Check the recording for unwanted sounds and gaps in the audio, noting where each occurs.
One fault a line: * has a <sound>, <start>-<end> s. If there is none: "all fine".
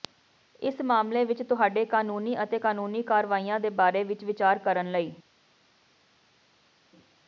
all fine